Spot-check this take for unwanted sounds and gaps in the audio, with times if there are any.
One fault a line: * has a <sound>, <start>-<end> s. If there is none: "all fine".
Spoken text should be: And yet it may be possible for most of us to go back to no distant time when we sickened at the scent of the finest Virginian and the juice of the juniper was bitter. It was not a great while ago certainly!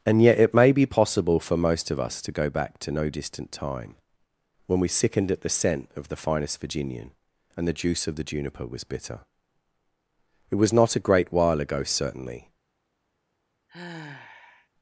* has a sigh, 13.7-14.7 s